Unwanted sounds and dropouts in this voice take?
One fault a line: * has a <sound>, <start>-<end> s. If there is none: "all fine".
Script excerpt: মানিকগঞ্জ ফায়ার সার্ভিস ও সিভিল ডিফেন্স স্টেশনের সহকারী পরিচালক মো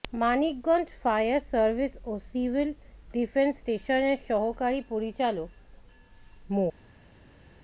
all fine